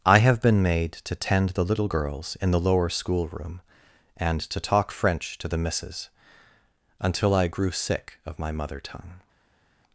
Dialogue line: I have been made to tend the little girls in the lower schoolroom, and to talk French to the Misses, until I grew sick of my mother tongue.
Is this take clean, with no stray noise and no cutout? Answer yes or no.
yes